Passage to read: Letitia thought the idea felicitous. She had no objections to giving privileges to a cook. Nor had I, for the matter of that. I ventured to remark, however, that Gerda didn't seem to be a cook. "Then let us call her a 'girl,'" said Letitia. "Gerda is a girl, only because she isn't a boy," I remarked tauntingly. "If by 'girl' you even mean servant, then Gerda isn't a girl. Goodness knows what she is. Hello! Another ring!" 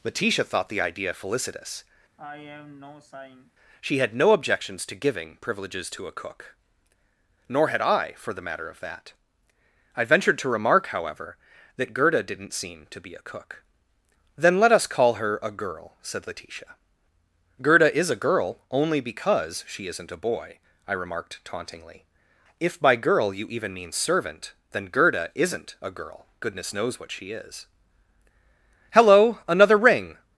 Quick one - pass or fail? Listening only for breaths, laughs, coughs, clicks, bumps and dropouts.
fail